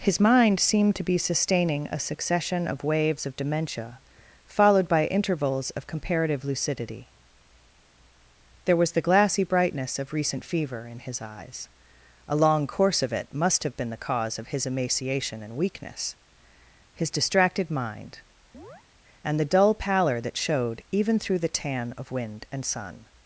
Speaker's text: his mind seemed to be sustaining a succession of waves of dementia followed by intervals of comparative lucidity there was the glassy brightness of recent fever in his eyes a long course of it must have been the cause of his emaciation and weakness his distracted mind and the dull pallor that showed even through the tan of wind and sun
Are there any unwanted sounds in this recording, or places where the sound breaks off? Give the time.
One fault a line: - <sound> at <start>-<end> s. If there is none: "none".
- chirp at 18.5-18.8 s